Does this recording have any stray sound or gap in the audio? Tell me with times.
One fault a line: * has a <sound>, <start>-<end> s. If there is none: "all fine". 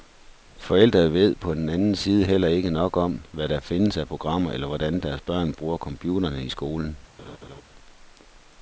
* has a laugh, 7.2-7.6 s